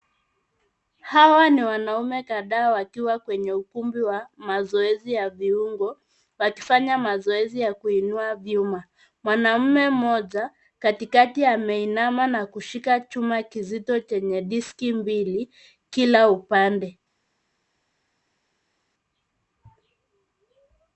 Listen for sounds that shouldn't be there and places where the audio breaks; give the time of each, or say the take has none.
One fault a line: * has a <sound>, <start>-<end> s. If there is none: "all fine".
all fine